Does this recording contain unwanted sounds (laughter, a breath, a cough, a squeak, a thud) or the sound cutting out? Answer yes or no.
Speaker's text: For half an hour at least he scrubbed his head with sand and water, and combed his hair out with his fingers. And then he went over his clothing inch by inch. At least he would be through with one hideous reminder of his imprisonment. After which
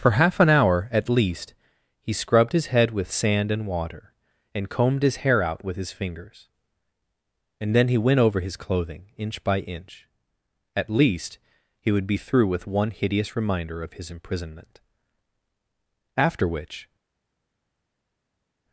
no